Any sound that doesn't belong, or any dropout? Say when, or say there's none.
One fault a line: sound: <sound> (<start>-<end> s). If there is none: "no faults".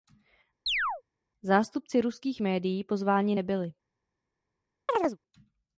sound: chirp (0.7-1.0 s)
sound: chirp (4.9-5.2 s)